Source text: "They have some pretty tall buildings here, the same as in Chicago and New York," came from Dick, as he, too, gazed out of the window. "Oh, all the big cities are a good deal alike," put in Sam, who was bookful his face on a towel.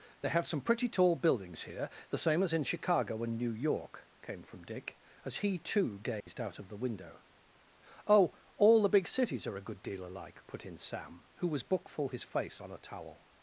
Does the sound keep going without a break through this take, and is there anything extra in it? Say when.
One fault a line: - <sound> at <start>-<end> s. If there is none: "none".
- dropout at 6.2-6.3 s